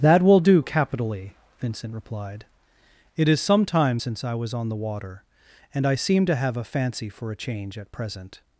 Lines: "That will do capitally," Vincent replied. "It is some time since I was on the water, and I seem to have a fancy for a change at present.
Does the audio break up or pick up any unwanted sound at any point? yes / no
no